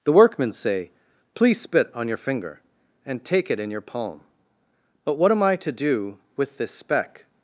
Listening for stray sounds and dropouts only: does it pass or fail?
pass